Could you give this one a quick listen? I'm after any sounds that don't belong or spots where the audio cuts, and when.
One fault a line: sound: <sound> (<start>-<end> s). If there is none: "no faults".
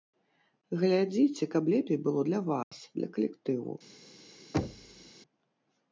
sound: dropout (2.6-2.7 s)
sound: thud (4.5-5.1 s)